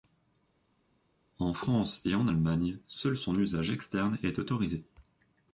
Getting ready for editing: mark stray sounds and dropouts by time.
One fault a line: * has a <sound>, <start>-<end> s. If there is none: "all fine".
all fine